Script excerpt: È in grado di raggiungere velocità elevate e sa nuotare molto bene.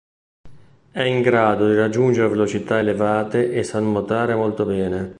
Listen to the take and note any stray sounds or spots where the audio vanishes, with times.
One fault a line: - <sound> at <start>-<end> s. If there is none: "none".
none